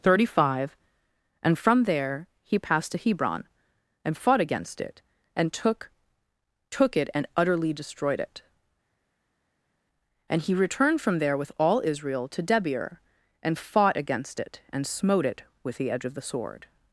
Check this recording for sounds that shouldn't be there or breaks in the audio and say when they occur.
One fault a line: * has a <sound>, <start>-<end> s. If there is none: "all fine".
all fine